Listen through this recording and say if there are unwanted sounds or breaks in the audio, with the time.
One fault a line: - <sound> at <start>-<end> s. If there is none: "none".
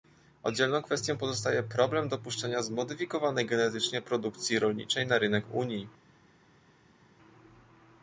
none